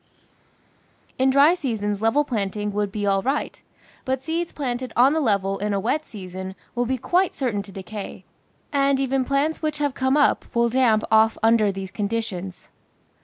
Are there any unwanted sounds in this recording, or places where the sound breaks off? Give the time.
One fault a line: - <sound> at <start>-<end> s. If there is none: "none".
none